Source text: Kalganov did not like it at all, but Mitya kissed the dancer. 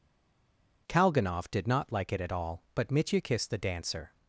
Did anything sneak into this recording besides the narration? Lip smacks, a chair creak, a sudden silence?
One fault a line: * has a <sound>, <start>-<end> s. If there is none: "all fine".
all fine